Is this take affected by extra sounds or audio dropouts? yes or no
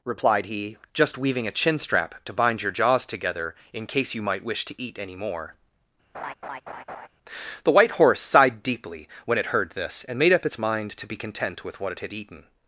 yes